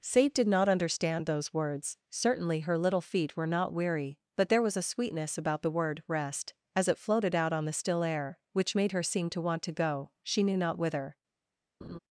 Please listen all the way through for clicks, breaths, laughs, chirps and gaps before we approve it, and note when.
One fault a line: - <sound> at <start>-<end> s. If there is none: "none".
- laugh at 11.8-12.0 s